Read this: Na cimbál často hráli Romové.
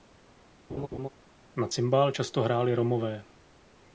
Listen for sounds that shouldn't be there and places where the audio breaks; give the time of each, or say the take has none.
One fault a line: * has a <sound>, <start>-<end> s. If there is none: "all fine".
* has a laugh, 0.7-1.1 s